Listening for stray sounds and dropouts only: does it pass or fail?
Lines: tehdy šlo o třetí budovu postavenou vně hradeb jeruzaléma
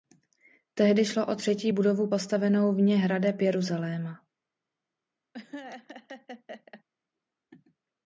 fail